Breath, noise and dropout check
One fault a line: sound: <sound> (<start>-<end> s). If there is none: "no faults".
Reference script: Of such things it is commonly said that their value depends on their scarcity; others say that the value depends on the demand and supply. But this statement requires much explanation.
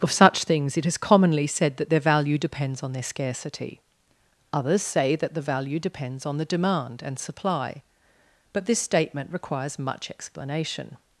no faults